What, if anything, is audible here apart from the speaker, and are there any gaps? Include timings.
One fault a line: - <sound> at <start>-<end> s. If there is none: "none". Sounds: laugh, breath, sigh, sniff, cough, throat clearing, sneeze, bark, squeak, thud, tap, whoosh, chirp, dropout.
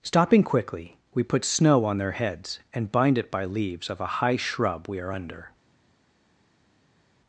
none